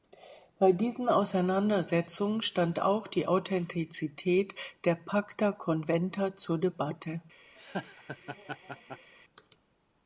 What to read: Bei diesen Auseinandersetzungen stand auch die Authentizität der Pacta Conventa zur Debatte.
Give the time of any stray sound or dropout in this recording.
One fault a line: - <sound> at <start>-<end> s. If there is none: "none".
- laugh at 7.6-9.1 s